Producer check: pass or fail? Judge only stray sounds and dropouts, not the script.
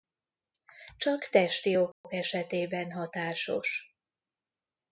fail